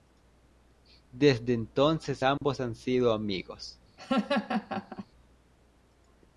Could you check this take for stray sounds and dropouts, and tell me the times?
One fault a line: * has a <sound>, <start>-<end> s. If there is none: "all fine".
* has a dropout, 2.4-2.4 s
* has a laugh, 4.0-5.1 s